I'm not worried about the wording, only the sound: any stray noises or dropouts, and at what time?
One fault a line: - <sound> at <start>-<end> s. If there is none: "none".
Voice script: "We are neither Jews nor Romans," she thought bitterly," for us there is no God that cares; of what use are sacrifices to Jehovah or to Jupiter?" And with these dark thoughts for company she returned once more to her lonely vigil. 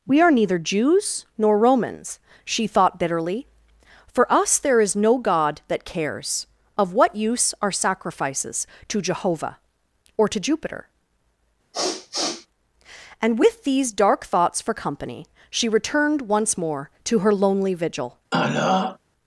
- sniff at 11.7-12.5 s
- throat clearing at 18.3-19.0 s